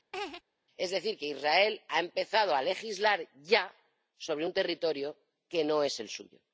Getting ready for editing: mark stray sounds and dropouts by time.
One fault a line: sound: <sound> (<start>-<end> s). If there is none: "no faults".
sound: laugh (0.1-0.4 s)